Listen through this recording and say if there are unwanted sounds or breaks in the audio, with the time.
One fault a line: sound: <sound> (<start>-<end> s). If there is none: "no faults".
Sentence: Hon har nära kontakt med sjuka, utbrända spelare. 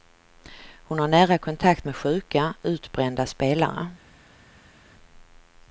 no faults